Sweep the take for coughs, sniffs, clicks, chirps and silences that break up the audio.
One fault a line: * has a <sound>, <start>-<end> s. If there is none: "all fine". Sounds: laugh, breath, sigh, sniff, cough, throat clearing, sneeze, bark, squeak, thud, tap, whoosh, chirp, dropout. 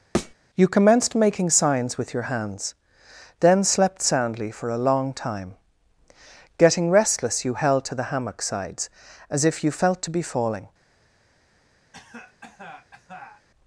* has a thud, 0.1-0.3 s
* has a cough, 11.9-13.5 s